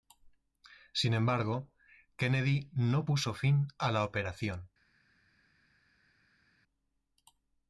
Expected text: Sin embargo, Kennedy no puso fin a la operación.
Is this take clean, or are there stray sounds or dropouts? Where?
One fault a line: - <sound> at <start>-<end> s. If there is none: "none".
none